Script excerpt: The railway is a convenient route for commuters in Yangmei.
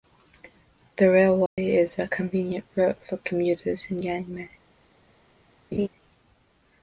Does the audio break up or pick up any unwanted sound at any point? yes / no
yes